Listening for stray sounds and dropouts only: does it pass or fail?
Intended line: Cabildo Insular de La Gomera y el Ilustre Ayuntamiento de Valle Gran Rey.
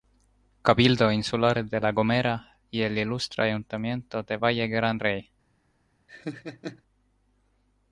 fail